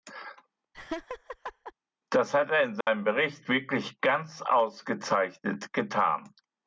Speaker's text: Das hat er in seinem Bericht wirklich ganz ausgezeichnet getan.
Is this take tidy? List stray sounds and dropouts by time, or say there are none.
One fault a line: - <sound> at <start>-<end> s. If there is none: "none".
- laugh at 0.7-1.7 s
- dropout at 2.8-2.9 s